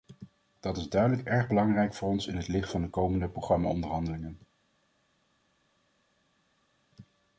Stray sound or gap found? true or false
false